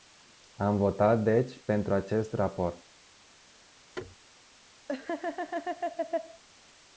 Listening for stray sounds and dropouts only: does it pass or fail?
fail